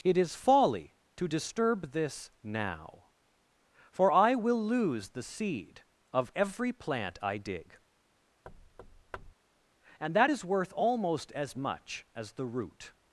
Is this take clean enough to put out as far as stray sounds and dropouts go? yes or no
no